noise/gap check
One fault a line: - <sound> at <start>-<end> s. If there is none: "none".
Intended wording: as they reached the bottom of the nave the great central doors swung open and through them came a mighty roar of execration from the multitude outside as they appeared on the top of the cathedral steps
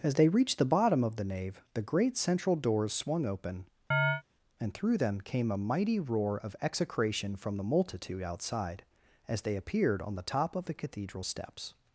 - chirp at 3.9-4.2 s